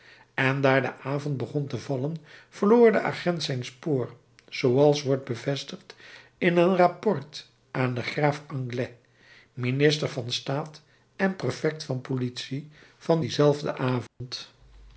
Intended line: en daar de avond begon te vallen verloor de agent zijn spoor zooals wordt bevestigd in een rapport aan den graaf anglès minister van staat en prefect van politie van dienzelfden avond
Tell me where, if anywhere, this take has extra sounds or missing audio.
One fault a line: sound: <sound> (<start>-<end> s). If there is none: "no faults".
sound: dropout (14.1-14.2 s)